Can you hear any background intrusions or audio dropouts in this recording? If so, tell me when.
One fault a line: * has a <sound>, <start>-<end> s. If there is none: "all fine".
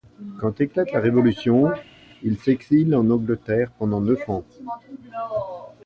all fine